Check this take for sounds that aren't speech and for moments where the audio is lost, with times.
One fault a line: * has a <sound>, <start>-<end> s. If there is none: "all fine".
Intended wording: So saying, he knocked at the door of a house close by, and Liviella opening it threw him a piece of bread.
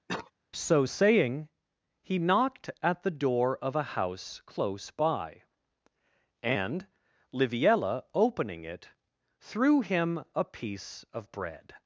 * has a cough, 0.1-0.3 s